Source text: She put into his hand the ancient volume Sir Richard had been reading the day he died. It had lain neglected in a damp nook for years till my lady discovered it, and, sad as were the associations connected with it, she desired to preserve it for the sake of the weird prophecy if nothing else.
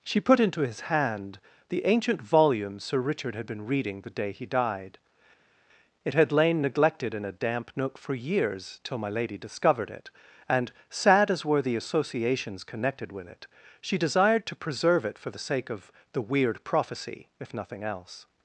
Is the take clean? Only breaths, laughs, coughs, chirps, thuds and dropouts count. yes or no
yes